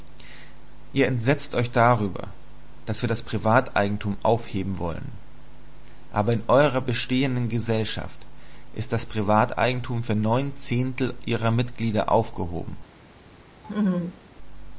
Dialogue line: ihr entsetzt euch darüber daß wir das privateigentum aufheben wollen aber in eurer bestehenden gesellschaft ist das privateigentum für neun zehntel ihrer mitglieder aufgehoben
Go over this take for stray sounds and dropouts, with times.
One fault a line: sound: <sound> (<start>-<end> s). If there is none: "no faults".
sound: laugh (13.6-14.2 s)